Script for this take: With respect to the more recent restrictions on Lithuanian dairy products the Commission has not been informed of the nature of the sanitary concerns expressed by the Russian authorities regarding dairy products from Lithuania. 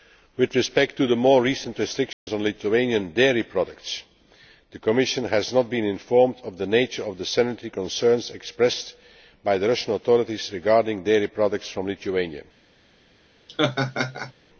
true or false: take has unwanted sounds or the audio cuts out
true